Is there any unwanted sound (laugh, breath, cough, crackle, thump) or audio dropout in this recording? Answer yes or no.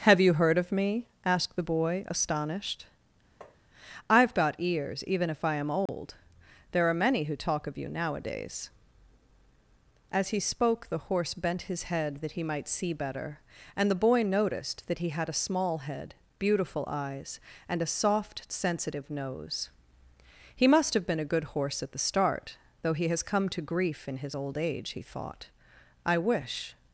yes